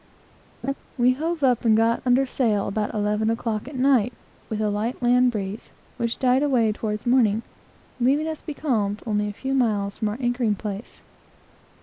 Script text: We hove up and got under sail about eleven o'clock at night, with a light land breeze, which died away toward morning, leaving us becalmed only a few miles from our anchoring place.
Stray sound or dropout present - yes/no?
yes